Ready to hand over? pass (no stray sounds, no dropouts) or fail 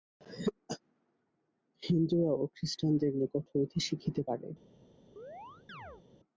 fail